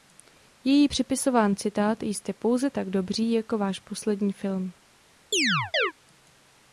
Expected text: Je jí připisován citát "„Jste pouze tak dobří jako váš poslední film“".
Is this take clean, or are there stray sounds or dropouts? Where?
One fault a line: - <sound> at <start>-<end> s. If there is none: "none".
- chirp at 5.3-5.9 s